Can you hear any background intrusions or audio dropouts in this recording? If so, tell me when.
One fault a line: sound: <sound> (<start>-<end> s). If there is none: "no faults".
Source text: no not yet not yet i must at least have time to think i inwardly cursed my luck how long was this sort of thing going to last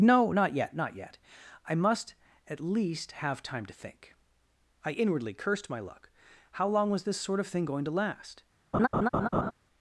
sound: laugh (8.7-9.5 s)